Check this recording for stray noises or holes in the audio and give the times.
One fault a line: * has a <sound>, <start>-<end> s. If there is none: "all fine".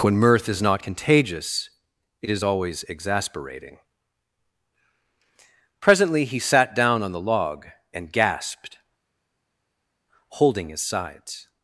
all fine